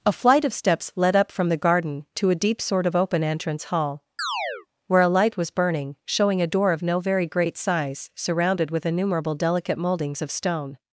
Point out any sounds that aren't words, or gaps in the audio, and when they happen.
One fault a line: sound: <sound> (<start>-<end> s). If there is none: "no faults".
sound: chirp (4.2-4.7 s)